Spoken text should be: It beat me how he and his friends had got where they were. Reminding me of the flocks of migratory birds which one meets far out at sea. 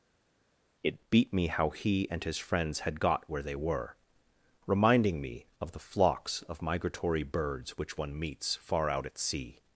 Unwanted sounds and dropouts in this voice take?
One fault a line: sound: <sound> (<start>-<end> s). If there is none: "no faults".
no faults